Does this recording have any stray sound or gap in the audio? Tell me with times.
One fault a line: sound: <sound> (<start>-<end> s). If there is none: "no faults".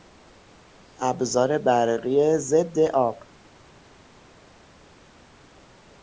no faults